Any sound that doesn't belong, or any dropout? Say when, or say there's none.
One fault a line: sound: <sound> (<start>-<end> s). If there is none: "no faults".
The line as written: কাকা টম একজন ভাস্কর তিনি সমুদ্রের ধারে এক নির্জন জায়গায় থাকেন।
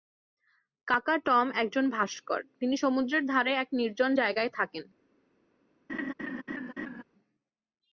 sound: laugh (5.9-7.0 s)